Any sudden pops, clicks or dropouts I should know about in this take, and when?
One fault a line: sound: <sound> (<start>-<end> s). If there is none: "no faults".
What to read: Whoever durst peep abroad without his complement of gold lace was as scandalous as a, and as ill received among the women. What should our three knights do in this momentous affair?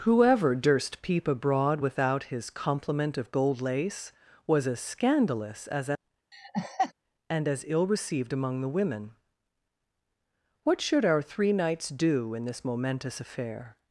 sound: laugh (6.3-6.9 s)